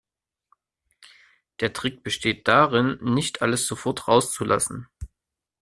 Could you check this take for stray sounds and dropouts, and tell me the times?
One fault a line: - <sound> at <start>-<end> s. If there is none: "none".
none